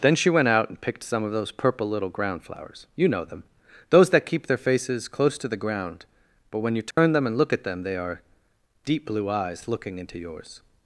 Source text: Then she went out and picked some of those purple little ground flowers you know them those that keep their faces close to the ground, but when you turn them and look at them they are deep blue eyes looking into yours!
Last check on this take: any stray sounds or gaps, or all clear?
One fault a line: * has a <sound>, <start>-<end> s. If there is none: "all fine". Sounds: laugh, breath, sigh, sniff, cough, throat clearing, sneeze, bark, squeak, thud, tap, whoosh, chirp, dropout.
* has a dropout, 6.9-7.0 s